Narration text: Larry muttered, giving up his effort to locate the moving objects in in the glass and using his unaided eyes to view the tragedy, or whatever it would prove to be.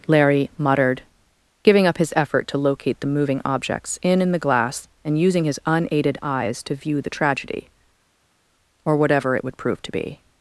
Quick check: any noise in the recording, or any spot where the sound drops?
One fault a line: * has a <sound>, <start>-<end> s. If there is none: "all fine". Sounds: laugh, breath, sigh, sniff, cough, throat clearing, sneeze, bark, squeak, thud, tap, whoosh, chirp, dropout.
all fine